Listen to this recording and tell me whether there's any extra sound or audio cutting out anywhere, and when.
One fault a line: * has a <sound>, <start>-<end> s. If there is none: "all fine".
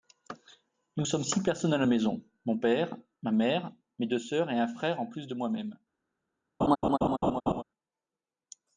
* has a laugh, 6.6-7.6 s